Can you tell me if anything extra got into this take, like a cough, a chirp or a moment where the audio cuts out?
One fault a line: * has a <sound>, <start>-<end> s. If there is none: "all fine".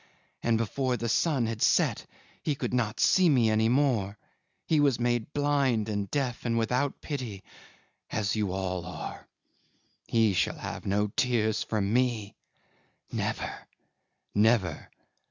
all fine